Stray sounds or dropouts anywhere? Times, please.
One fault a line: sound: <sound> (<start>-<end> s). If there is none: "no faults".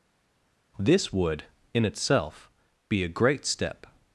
no faults